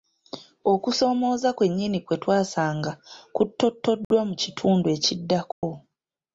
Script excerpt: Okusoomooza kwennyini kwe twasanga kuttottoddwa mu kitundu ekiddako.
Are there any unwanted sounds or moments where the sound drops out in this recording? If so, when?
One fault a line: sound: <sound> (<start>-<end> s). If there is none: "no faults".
sound: dropout (4.0-4.1 s)
sound: dropout (5.5-5.6 s)